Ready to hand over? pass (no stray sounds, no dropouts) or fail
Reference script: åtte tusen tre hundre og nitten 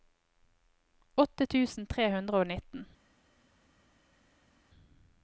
pass